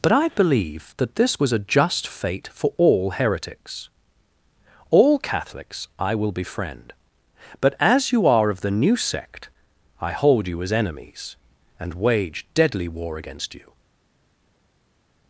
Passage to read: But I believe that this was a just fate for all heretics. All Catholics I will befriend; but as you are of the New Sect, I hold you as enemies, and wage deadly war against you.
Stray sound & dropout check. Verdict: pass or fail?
pass